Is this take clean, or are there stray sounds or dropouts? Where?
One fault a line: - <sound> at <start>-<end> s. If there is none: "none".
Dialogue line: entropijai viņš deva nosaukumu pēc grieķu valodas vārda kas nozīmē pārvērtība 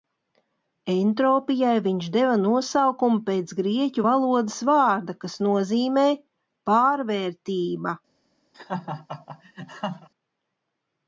- laugh at 8.5-10.1 s